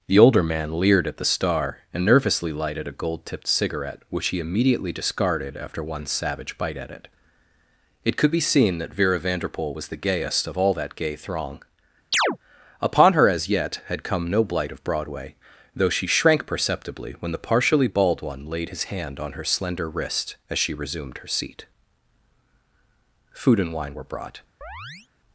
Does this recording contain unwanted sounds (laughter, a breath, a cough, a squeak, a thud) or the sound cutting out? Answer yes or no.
yes